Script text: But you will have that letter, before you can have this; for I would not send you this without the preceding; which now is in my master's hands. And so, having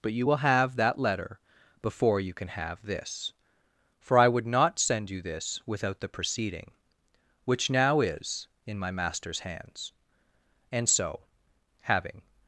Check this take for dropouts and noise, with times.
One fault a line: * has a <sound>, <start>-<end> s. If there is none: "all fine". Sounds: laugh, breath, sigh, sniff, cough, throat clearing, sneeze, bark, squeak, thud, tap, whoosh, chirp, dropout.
all fine